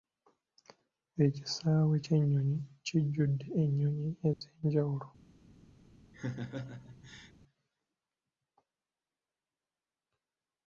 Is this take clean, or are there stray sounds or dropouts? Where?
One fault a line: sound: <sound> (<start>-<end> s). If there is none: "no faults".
sound: dropout (4.3-4.4 s)
sound: laugh (6.1-7.3 s)